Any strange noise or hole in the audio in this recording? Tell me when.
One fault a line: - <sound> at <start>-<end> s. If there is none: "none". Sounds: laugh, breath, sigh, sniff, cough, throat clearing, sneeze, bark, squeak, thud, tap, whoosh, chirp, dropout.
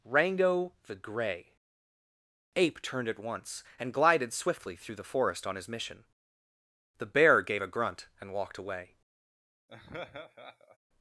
- laugh at 9.7-10.8 s